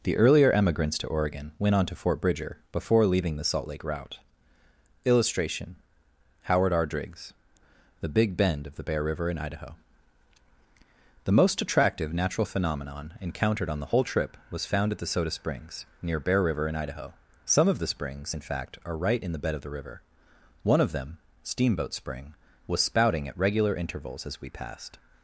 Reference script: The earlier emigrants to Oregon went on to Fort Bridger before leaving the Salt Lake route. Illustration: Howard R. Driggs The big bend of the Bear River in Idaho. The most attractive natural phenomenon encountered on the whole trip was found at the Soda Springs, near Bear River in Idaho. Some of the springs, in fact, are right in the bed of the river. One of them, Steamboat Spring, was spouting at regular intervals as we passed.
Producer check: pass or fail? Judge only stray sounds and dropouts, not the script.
pass